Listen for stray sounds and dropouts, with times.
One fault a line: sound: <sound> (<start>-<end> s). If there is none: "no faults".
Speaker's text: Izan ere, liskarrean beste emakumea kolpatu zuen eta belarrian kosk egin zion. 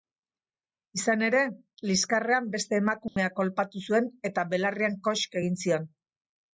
sound: dropout (3.1-3.2 s)